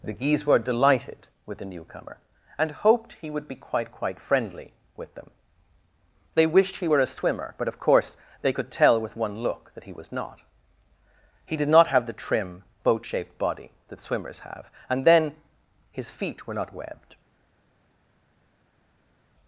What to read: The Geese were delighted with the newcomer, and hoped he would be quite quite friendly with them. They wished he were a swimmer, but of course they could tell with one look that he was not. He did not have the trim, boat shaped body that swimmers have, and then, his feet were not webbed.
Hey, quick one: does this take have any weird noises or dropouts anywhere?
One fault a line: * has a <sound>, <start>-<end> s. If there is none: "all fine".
all fine